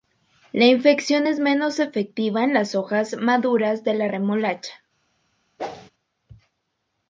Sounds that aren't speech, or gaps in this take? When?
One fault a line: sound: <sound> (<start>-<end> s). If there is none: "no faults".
sound: whoosh (5.6-5.9 s)